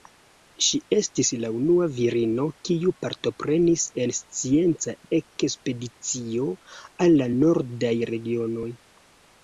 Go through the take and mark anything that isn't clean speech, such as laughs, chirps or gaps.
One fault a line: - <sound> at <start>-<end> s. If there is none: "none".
none